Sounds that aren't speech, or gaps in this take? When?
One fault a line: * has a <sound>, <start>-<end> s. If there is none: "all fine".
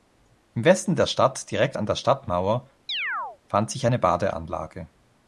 * has a chirp, 2.9-3.4 s